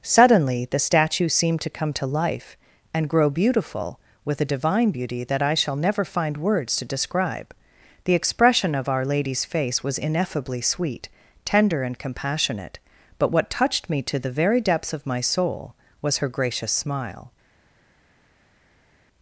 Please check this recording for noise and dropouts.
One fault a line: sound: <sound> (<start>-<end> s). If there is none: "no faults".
no faults